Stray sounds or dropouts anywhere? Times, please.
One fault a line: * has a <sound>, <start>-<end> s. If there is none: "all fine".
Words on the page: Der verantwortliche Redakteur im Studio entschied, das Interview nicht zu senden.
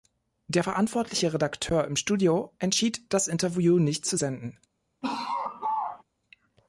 * has a laugh, 5.0-6.0 s